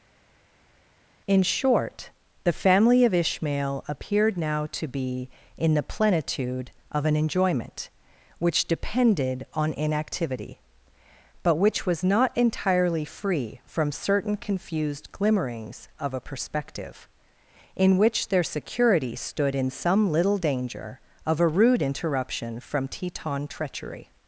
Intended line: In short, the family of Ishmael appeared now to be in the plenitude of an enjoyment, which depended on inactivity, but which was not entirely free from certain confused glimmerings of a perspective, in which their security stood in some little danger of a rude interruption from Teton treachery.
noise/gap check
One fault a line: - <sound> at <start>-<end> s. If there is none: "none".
none